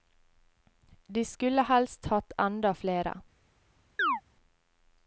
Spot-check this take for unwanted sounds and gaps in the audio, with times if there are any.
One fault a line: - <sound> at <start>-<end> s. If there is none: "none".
- chirp at 4.0-4.2 s